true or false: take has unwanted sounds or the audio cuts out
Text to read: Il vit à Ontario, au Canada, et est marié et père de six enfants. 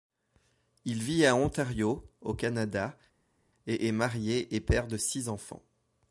false